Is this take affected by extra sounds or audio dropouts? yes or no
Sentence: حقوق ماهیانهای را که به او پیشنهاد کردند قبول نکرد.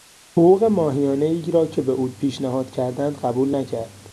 no